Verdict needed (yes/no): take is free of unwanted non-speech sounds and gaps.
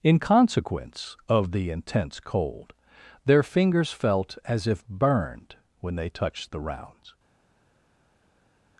yes